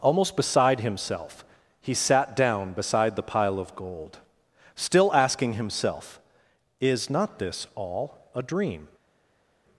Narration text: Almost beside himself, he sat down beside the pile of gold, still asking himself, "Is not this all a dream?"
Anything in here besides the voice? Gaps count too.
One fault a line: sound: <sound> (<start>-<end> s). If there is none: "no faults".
no faults